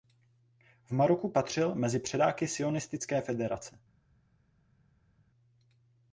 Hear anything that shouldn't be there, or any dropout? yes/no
no